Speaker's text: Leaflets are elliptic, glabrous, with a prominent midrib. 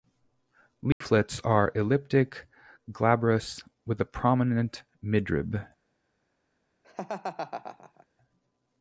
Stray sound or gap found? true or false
true